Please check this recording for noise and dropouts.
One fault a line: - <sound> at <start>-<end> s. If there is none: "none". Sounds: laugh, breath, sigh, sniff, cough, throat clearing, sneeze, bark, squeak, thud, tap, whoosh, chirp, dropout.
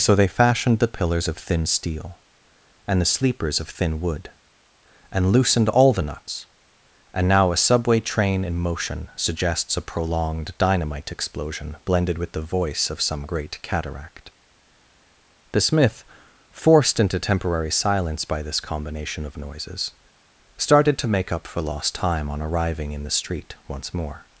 none